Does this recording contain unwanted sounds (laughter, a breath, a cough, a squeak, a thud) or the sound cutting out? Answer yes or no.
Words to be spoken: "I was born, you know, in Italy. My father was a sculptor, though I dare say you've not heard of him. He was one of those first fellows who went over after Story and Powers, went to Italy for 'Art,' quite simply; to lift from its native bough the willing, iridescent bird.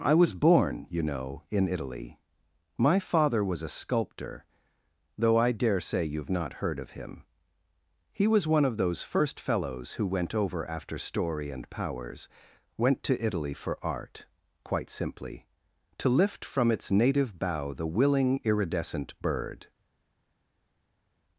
no